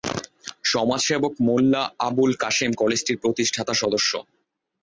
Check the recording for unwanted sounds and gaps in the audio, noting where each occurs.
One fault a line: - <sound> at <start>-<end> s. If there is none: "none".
none